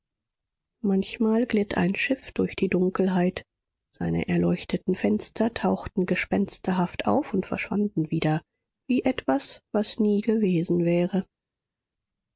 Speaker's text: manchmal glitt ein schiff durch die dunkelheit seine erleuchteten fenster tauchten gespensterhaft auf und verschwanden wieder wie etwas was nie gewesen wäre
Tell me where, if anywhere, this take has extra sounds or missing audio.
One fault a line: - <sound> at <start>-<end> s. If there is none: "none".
none